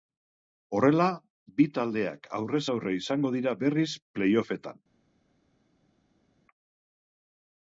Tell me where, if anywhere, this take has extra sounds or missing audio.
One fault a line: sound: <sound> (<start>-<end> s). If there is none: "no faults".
no faults